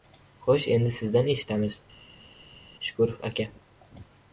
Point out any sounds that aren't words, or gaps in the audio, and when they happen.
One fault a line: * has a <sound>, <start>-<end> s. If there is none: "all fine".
all fine